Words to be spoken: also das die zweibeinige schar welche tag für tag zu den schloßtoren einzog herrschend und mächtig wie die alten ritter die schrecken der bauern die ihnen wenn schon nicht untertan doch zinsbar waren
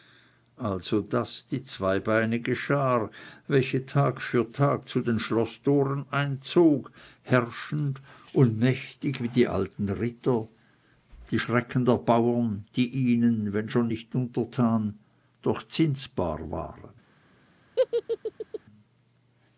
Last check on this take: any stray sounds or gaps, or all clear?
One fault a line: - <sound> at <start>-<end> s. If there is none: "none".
- laugh at 17.8-18.6 s